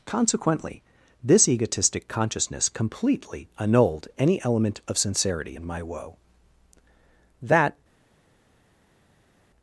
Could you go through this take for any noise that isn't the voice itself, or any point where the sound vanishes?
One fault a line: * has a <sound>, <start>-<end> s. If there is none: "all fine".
all fine